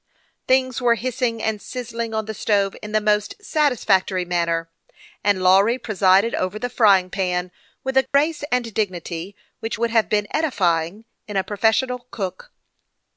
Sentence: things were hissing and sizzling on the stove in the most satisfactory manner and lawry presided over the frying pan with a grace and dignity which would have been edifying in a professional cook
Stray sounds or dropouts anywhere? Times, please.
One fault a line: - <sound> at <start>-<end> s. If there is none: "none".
- dropout at 8.1-8.1 s